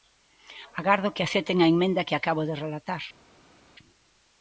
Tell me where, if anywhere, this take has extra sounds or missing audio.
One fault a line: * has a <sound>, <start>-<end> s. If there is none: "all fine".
all fine